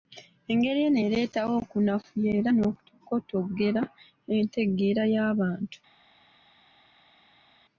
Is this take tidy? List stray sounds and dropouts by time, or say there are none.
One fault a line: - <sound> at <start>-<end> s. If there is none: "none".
none